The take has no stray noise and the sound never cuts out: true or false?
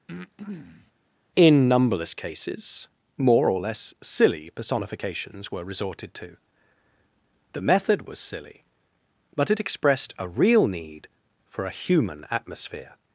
false